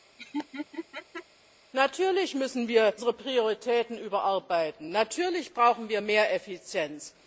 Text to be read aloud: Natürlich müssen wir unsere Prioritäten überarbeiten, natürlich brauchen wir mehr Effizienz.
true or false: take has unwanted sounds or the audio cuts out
true